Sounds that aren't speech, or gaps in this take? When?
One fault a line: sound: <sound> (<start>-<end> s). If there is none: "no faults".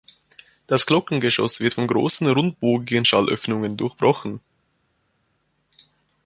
no faults